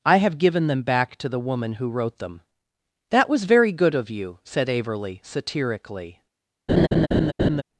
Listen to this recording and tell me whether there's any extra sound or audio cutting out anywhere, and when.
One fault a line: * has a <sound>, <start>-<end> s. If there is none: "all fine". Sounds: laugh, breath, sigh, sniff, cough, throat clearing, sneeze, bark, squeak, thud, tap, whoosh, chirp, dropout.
* has a laugh, 6.7-7.6 s